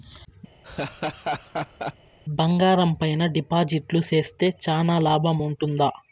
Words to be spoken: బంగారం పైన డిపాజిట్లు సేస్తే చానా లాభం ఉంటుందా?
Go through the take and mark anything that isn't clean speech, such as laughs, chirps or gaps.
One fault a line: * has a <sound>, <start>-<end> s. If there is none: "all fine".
* has a laugh, 0.6-1.9 s